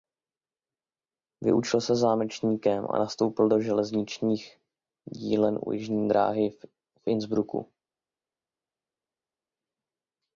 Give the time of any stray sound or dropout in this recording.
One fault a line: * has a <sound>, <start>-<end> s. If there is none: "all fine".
all fine